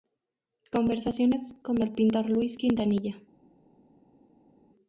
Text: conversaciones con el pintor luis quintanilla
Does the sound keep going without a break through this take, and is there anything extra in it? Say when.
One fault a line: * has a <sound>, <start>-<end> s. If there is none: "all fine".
all fine